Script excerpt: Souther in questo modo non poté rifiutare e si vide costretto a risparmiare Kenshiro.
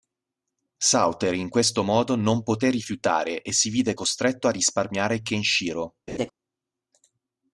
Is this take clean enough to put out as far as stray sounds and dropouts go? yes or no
no